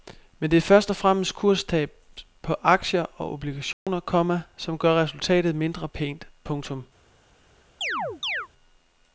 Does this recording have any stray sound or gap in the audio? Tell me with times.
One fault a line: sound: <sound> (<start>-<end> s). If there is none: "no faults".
sound: dropout (3.7-3.9 s)
sound: chirp (7.8-8.5 s)